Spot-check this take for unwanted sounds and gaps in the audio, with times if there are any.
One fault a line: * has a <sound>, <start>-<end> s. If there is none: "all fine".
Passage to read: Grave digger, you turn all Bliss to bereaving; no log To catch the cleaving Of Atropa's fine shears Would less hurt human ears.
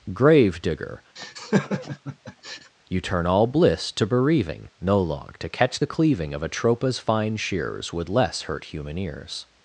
* has a laugh, 1.2-2.7 s